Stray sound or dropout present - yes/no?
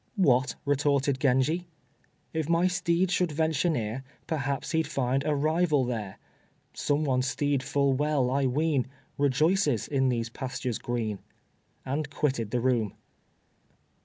no